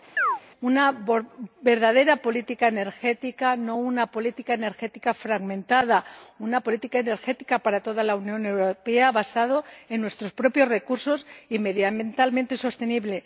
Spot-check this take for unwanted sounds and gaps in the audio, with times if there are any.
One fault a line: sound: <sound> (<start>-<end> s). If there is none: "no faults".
sound: chirp (0.2-0.4 s)